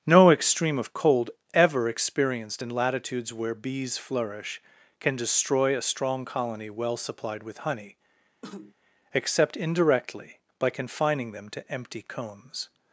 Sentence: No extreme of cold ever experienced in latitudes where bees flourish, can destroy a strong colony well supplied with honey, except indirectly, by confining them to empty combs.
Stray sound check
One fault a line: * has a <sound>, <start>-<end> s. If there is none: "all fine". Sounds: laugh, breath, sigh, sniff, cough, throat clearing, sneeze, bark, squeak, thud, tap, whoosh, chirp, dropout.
* has a cough, 8.4-8.7 s